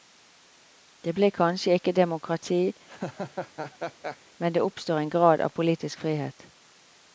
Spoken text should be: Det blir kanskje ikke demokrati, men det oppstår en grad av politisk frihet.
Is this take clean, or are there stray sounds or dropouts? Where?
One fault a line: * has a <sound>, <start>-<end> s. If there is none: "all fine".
* has a laugh, 2.9-4.2 s